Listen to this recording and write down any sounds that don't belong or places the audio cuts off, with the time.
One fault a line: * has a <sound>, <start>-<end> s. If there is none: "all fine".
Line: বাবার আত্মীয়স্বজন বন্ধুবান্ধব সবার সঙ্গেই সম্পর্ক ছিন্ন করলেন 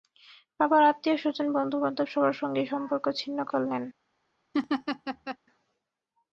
* has a laugh, 4.5-5.4 s